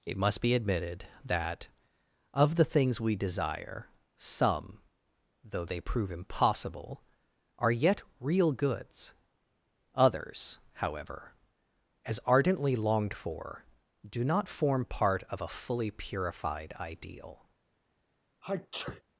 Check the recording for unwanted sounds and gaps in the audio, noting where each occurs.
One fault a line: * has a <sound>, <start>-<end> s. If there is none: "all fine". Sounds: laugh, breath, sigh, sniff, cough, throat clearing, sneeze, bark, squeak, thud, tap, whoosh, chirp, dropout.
* has a sneeze, 18.4-19.0 s